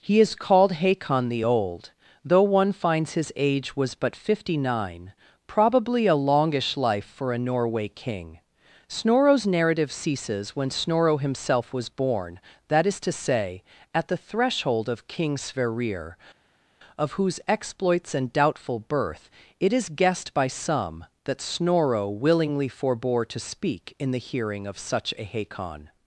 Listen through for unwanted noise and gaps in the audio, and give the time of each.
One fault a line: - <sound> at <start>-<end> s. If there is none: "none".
none